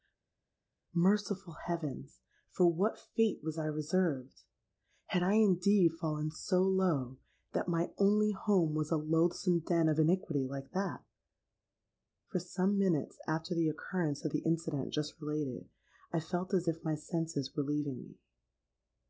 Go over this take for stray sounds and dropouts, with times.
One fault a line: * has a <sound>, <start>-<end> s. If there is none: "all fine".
all fine